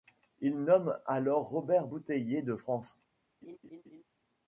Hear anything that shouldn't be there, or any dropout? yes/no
yes